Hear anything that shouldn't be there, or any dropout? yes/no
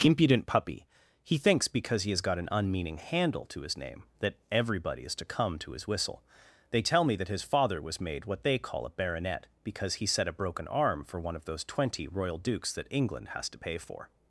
no